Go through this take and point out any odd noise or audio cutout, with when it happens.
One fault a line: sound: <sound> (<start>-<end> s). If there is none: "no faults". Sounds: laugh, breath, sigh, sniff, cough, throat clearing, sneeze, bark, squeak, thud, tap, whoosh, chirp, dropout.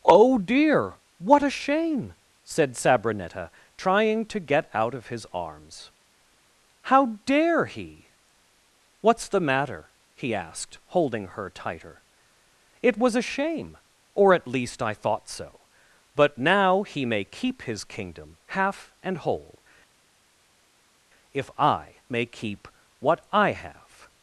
no faults